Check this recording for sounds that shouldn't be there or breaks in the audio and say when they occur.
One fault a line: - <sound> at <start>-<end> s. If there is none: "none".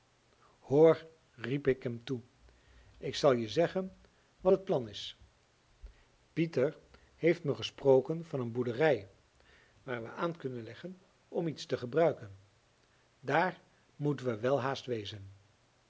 none